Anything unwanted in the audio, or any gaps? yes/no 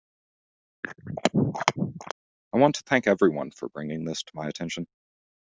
yes